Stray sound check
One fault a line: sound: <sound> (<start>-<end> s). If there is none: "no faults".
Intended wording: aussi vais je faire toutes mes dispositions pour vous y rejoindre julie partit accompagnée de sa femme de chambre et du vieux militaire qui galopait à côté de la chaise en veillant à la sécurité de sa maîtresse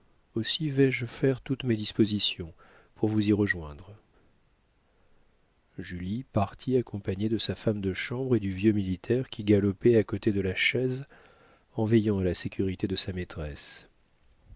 no faults